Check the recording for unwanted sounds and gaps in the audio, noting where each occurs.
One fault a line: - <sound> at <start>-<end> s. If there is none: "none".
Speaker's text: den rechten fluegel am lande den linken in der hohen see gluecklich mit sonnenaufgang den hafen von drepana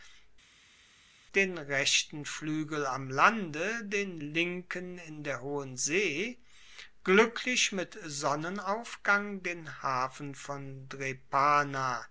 none